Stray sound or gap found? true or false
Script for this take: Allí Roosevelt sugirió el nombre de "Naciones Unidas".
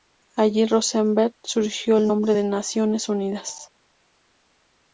false